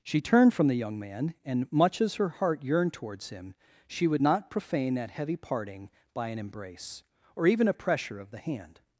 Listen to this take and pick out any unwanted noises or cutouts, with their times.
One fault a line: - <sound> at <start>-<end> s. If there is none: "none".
none